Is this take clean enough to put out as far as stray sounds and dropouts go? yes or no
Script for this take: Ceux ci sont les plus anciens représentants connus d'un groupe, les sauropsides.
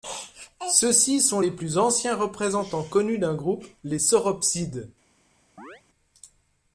no